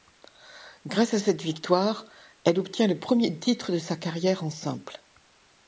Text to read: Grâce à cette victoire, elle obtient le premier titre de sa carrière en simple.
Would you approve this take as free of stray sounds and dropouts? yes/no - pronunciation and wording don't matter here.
yes